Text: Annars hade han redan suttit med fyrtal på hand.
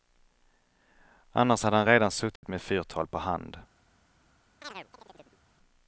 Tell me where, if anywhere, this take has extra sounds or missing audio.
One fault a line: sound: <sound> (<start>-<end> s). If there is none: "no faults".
sound: dropout (2.4-2.4 s)
sound: chirp (4.6-5.4 s)